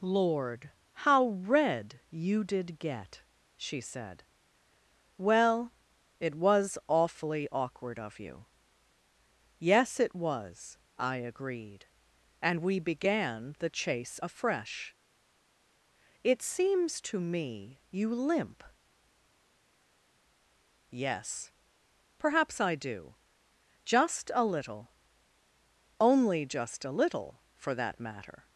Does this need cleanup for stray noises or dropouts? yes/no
no